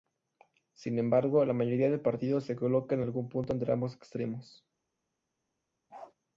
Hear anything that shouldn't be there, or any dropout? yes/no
yes